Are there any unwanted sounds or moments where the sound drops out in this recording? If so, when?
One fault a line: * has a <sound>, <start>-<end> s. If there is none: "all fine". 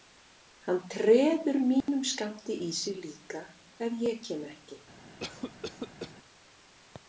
* has a dropout, 1.8-1.9 s
* has a cough, 5.2-6.1 s